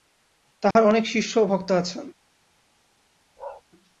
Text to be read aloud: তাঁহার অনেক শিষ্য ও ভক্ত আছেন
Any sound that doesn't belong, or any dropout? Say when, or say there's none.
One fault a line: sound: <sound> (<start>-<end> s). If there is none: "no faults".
sound: dropout (0.7-0.8 s)
sound: bark (3.4-3.6 s)